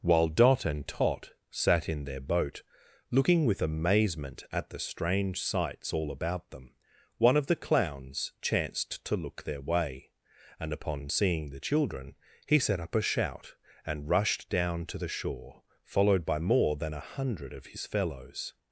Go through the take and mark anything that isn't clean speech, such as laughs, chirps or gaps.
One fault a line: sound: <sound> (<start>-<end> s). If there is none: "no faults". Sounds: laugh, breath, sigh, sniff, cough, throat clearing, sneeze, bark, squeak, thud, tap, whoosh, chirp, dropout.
no faults